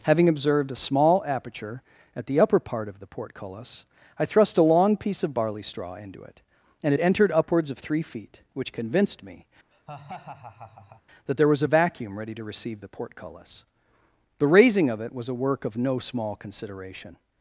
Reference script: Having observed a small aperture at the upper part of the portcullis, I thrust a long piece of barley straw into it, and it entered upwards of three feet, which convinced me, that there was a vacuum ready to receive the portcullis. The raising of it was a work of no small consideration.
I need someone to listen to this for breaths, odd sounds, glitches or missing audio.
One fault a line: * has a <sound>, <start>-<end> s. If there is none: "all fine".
* has a laugh, 9.7-11.0 s